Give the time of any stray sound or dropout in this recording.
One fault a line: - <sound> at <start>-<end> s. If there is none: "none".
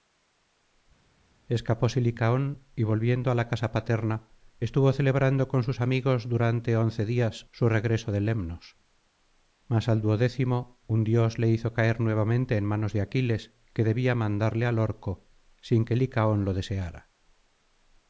none